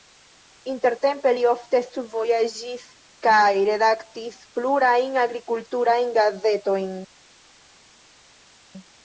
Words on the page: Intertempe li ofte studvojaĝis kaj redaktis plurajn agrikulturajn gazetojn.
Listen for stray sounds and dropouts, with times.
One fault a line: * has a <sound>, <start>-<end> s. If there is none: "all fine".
all fine